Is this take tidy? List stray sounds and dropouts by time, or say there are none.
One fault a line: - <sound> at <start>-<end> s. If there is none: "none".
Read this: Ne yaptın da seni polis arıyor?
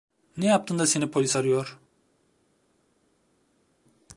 none